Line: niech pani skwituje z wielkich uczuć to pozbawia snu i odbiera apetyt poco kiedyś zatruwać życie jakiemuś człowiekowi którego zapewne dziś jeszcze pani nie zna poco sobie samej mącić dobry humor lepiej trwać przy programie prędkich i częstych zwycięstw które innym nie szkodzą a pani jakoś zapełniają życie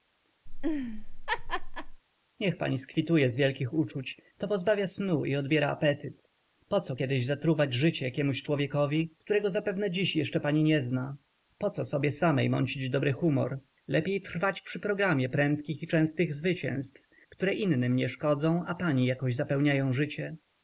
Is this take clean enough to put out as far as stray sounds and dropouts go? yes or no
no